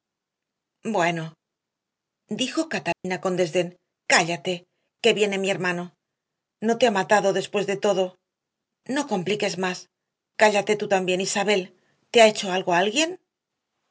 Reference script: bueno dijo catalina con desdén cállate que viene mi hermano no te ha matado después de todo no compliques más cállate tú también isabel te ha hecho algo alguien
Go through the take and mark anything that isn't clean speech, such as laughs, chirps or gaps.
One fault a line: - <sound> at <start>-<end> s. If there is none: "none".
- dropout at 2.9-3.0 s